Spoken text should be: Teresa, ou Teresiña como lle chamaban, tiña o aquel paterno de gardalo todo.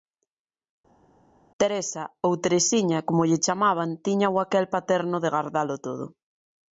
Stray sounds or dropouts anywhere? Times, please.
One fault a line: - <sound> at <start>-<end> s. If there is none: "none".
none